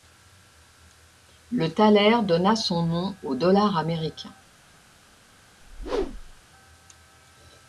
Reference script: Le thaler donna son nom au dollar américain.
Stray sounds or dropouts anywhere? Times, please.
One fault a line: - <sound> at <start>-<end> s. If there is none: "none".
- whoosh at 5.6-6.4 s